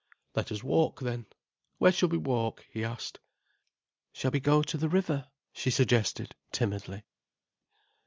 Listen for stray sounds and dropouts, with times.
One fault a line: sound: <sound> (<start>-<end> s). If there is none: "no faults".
no faults